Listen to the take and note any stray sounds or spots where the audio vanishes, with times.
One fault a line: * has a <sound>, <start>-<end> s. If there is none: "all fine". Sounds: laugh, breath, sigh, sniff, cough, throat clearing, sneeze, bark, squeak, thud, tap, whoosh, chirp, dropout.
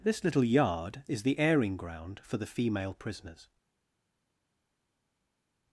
all fine